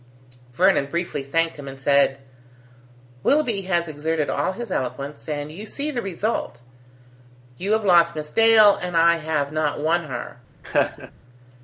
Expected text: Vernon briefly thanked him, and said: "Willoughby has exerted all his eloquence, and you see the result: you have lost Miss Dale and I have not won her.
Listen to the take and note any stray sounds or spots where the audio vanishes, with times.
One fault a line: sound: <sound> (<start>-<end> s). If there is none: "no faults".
sound: laugh (10.6-11.1 s)